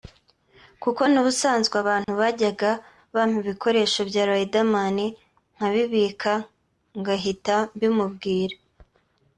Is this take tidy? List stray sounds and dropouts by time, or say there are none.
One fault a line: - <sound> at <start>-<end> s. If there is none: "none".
- dropout at 2.0-2.1 s